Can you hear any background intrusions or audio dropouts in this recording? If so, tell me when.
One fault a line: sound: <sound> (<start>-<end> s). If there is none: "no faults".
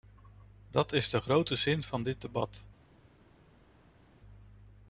no faults